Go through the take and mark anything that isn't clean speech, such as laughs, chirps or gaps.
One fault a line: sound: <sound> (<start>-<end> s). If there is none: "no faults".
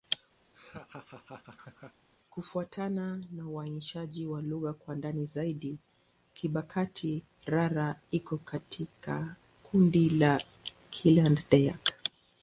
sound: laugh (0.4-2.0 s)